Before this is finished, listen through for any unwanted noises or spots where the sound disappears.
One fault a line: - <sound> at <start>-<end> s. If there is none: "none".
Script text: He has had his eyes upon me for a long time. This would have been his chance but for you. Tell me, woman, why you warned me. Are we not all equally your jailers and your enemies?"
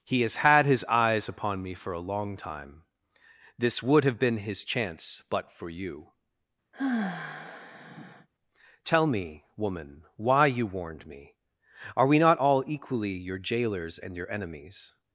- sigh at 6.7-8.3 s